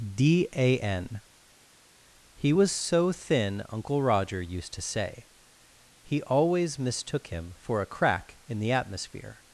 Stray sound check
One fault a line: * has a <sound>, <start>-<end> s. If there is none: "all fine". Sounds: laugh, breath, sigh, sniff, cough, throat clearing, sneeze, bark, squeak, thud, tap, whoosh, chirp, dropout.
all fine